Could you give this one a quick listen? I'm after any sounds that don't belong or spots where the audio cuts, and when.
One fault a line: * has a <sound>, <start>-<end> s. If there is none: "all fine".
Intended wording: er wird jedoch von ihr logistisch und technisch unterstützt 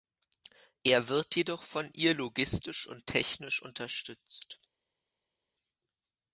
all fine